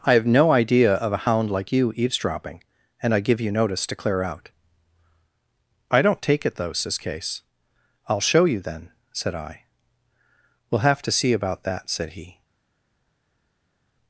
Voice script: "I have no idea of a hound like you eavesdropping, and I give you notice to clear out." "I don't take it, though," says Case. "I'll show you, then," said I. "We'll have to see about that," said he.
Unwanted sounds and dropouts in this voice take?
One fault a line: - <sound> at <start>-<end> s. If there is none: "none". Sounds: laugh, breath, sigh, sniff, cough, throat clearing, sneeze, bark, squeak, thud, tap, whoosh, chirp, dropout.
none